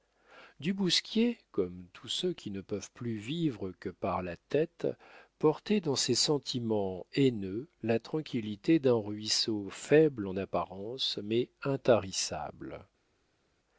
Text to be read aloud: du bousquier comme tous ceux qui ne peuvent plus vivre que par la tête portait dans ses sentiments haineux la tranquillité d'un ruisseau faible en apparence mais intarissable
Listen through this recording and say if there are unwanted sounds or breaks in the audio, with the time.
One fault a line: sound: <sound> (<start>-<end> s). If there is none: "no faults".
no faults